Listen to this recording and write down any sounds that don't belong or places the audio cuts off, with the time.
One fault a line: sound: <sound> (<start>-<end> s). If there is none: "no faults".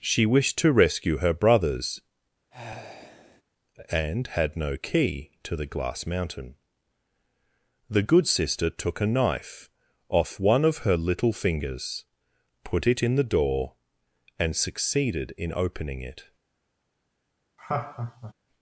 sound: sigh (2.5-3.4 s)
sound: laugh (17.6-18.3 s)